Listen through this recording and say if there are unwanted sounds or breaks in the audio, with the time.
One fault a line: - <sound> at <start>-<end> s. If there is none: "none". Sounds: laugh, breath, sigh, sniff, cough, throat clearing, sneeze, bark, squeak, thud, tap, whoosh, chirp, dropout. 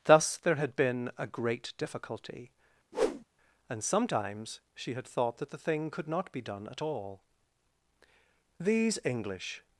- whoosh at 2.9-3.3 s